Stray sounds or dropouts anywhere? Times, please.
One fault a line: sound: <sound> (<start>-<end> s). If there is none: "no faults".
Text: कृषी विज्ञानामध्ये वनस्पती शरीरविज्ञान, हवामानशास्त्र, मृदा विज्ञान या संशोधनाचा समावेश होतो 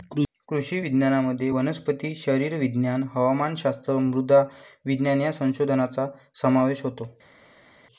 no faults